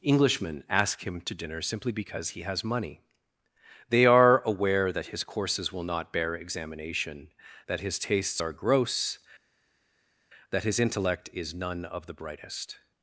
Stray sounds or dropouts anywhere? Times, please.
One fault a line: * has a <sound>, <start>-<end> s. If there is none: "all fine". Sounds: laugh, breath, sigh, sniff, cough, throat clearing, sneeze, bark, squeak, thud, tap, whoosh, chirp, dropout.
all fine